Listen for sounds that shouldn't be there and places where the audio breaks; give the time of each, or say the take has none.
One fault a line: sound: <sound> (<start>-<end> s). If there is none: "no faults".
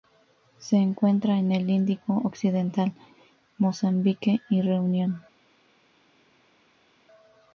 no faults